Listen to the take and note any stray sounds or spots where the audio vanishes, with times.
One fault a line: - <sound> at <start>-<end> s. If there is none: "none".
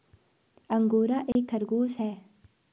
- dropout at 1.3-1.4 s